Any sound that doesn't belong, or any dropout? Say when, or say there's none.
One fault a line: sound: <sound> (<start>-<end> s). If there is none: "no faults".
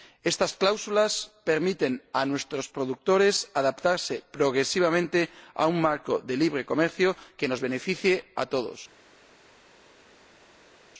no faults